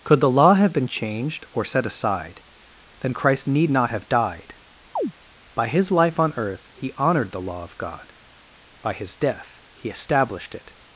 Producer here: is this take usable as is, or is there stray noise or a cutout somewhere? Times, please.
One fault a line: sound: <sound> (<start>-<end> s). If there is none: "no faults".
sound: chirp (5.0-5.1 s)